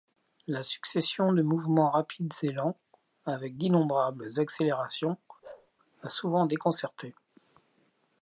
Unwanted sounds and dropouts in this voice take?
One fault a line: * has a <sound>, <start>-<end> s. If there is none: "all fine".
* has a bark, 5.4-5.7 s